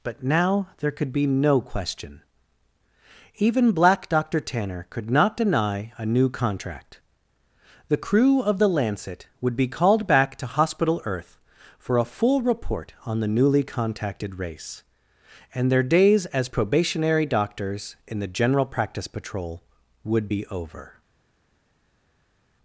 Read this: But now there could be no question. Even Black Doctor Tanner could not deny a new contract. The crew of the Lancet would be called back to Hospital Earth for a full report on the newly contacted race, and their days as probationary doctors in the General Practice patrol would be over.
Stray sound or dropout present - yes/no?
no